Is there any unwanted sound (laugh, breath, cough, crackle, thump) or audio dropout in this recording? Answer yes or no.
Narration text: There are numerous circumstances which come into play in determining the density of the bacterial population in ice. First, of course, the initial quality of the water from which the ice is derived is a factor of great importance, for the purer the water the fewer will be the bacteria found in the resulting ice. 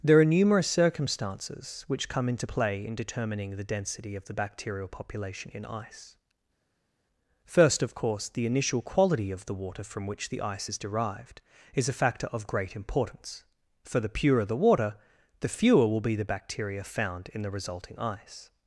no